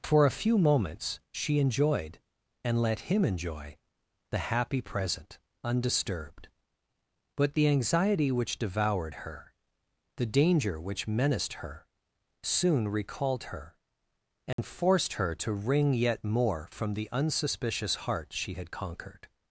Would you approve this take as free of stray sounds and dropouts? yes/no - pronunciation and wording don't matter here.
no